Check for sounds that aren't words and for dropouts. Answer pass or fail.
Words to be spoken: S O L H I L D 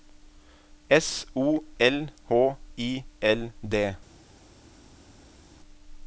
pass